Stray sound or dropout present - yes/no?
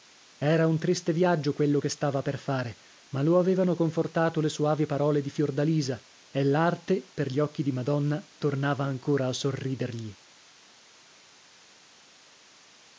no